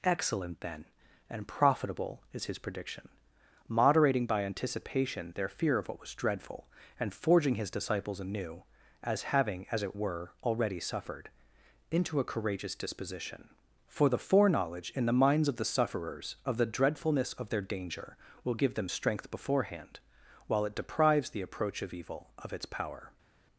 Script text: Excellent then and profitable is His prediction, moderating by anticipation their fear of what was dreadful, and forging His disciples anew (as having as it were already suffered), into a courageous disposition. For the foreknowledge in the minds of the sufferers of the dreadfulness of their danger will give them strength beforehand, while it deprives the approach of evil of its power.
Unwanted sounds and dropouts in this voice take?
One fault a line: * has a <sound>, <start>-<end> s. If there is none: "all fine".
all fine